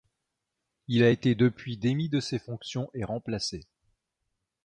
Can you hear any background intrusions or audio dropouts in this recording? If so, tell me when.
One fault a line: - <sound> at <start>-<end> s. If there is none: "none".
none